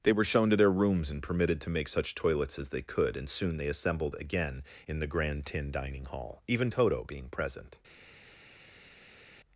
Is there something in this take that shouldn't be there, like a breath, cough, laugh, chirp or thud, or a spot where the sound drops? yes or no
no